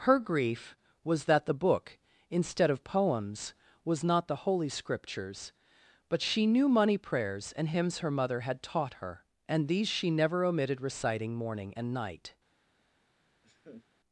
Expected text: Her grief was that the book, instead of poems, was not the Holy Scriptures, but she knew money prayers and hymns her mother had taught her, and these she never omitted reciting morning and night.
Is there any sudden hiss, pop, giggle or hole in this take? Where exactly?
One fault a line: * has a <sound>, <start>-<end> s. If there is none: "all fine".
* has a laugh, 13.4-13.9 s